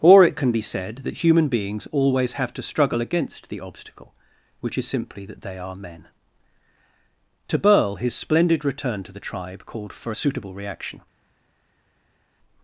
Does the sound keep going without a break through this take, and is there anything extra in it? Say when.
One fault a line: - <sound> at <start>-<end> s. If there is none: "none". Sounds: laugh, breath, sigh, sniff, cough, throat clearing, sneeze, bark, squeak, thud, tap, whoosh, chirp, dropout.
none